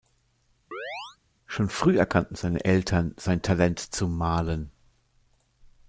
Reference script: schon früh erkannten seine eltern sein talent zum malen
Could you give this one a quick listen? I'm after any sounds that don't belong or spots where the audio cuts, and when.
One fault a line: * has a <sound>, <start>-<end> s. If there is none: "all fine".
* has a chirp, 0.7-1.2 s